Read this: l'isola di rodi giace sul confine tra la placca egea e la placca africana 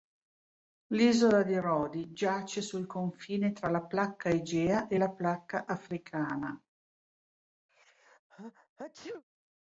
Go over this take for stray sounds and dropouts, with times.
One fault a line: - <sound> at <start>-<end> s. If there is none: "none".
- sneeze at 7.7-9.2 s